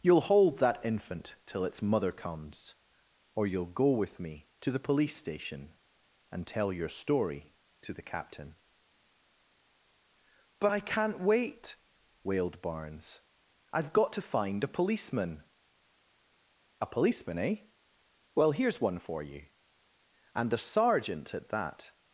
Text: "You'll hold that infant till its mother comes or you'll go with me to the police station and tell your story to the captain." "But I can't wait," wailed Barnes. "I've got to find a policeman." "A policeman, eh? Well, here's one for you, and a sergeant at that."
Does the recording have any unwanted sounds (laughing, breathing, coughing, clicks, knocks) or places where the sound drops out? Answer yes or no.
no